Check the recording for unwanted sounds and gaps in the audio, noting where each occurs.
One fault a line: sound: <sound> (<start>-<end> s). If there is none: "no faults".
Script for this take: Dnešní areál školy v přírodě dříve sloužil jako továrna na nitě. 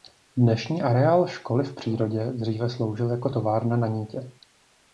no faults